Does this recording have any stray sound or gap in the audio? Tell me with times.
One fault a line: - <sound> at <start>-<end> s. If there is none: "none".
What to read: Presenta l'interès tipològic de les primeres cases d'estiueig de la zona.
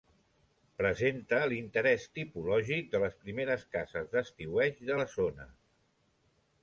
none